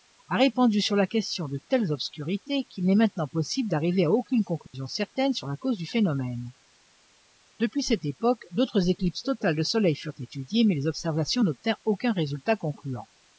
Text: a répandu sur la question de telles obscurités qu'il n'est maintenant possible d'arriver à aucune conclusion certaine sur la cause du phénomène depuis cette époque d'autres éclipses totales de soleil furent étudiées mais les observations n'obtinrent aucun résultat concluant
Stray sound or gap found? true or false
true